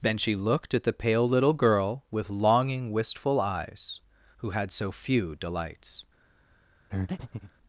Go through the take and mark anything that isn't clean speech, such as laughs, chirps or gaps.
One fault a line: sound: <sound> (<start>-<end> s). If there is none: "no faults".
sound: breath (6.9-7.5 s)